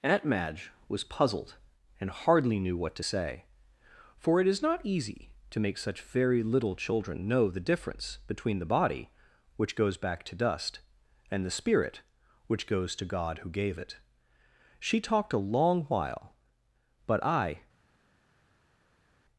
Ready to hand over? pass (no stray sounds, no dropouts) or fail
pass